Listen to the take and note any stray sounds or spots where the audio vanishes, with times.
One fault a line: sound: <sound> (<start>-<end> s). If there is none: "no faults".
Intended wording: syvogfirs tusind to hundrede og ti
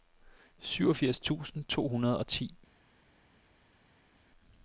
no faults